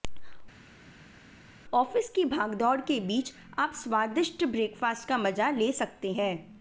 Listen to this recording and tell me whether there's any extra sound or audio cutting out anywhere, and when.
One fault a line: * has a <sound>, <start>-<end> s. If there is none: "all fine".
all fine